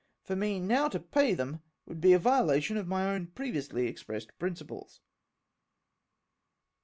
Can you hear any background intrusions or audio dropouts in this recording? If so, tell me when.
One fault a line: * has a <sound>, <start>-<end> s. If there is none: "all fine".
all fine